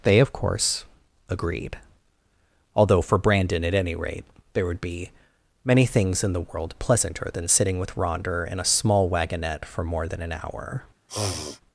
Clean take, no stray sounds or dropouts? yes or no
no